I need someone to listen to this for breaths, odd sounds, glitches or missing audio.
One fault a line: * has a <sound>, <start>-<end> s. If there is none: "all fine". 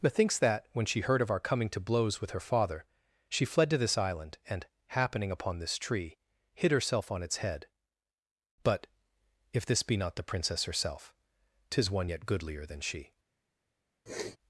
* has a sniff, 14.1-14.4 s